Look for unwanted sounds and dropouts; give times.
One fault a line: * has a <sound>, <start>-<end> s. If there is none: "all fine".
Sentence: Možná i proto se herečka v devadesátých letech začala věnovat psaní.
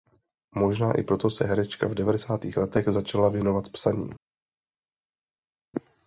all fine